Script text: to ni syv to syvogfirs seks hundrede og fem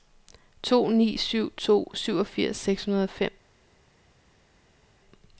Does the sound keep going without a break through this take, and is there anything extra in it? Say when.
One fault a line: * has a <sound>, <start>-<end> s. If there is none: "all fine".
all fine